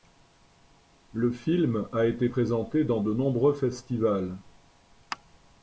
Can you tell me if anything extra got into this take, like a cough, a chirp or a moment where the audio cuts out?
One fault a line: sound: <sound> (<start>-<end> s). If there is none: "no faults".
no faults